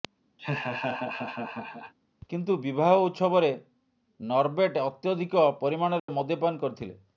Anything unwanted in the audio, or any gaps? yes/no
yes